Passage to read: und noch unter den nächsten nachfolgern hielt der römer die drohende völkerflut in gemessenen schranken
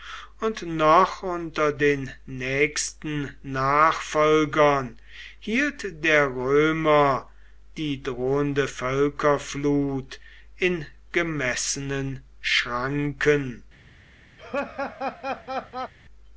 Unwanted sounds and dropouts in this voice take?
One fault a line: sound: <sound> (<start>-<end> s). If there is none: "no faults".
sound: laugh (14.4-15.9 s)